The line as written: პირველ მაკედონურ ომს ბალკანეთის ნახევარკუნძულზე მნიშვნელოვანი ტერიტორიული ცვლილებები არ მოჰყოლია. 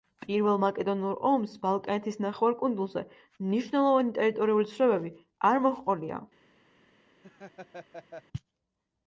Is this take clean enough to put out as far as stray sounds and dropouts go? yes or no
no